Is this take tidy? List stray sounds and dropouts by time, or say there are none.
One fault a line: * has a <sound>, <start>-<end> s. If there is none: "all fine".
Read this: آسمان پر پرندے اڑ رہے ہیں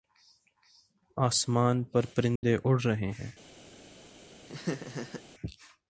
* has a dropout, 2.4-2.4 s
* has a laugh, 4.5-5.2 s